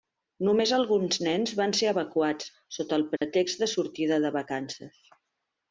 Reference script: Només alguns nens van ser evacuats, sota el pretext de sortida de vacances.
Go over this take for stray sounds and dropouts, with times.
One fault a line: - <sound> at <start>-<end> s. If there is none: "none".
- dropout at 3.2-3.2 s